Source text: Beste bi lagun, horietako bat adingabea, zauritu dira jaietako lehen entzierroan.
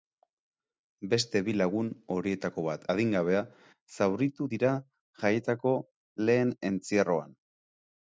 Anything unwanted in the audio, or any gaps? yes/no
no